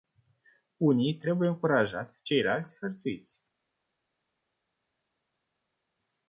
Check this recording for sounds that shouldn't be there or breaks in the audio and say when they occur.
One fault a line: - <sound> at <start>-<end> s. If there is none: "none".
none